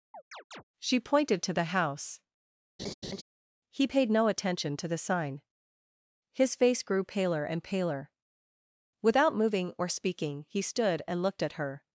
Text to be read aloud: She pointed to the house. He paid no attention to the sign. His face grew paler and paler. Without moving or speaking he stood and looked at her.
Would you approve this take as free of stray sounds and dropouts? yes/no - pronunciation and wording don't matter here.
no